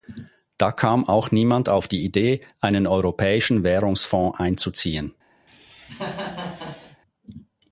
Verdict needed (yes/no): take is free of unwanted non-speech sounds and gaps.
no